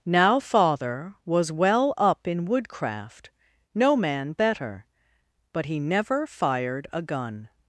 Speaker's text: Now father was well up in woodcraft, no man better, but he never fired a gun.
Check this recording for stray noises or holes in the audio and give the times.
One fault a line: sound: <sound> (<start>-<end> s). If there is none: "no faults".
no faults